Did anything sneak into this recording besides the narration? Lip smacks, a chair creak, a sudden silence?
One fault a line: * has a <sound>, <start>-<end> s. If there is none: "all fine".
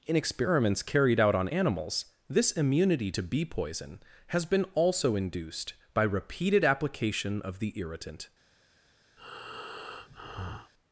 * has a breath, 9.2-10.7 s